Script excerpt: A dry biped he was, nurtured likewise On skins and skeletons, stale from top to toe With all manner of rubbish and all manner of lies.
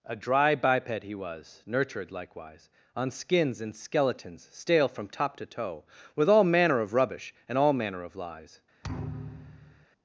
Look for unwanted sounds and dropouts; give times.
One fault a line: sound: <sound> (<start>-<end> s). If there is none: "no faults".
sound: thud (8.8-9.9 s)